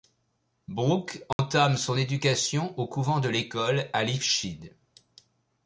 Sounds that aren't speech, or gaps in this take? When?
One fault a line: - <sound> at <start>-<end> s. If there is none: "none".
- dropout at 1.3-1.4 s